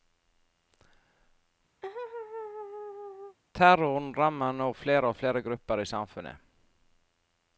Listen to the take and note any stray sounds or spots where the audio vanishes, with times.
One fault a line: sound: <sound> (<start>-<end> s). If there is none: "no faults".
sound: laugh (1.8-3.4 s)